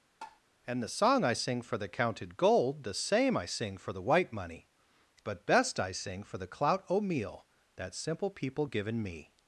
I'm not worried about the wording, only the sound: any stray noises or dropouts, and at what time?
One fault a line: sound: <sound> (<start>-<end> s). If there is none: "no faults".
sound: tap (0.2-0.4 s)